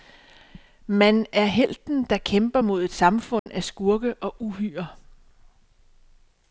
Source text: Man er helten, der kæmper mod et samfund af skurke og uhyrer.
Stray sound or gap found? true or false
true